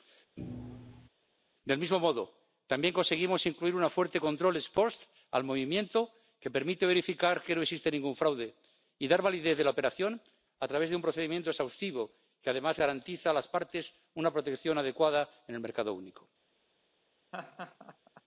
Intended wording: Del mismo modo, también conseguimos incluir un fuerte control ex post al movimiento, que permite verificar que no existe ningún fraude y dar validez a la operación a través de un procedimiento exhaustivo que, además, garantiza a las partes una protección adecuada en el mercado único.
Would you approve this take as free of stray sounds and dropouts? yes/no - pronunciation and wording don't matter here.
no